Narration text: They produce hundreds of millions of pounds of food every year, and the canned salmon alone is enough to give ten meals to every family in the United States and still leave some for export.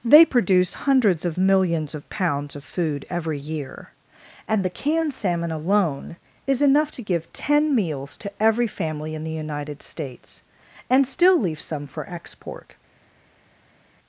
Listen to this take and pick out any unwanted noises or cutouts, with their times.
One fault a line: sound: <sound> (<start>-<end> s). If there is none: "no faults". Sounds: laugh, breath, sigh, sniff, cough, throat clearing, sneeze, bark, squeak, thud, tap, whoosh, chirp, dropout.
no faults